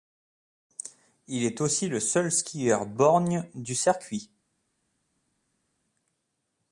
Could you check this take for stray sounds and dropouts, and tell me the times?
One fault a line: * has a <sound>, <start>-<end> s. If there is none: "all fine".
all fine